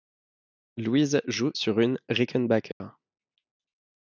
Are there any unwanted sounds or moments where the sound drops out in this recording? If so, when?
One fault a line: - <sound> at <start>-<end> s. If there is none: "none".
- dropout at 2.7-2.8 s